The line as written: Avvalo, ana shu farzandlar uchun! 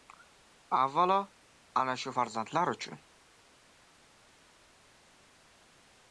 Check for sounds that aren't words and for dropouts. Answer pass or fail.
pass